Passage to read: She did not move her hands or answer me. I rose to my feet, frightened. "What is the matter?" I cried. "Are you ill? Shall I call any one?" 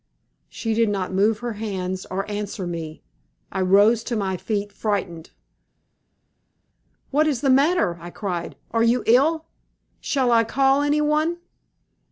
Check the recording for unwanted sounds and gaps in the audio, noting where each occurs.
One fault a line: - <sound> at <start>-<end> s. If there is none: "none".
none